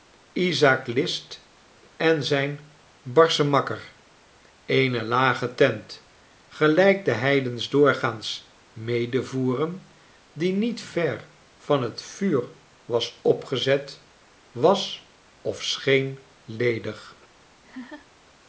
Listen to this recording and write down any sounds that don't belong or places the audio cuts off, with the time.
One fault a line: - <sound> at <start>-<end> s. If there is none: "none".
- laugh at 17.6-18.1 s